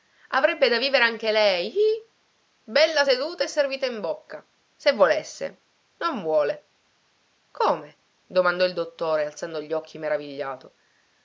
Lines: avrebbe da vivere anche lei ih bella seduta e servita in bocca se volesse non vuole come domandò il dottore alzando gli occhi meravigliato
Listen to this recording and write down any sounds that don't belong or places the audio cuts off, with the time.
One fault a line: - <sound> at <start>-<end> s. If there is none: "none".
none